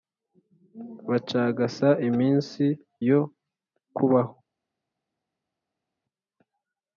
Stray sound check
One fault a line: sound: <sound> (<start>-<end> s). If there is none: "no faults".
no faults